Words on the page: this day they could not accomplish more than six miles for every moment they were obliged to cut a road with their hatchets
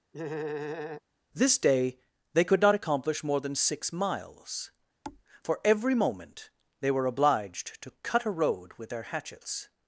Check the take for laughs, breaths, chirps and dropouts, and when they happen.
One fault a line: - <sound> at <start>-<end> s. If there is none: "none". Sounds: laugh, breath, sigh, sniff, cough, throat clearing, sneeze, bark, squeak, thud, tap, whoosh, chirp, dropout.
- laugh at 0.1-1.0 s
- thud at 5.0-5.2 s